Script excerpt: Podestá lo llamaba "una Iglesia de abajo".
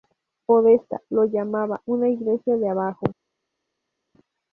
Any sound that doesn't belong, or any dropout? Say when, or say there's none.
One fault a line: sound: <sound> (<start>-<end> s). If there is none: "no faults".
no faults